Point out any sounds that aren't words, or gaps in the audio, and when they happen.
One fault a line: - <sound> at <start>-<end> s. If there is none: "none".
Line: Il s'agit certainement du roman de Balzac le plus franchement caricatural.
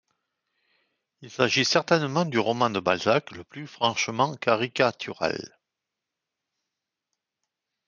none